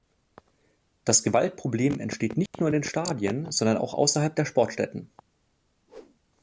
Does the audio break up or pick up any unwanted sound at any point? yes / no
yes